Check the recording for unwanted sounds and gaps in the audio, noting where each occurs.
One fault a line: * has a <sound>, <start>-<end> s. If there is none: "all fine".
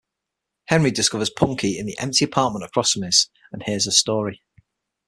all fine